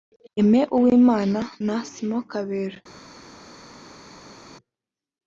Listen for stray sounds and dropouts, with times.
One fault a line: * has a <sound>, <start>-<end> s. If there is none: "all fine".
all fine